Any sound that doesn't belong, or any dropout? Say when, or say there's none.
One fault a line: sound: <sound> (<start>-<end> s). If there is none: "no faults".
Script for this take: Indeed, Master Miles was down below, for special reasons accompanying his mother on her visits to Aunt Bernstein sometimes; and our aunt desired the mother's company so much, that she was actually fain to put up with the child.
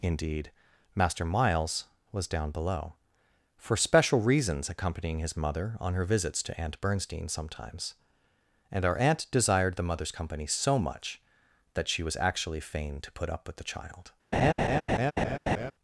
sound: laugh (14.3-15.7 s)